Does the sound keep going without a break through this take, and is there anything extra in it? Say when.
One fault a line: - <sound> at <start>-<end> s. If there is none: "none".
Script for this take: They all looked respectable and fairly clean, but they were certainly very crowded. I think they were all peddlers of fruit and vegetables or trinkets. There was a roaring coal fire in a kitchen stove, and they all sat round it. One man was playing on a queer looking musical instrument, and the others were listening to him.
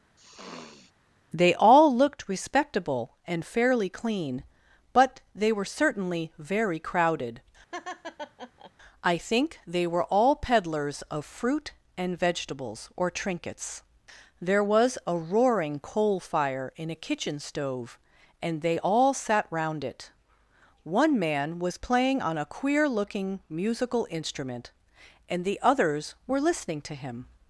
- sniff at 0.2-0.9 s
- laugh at 7.7-8.7 s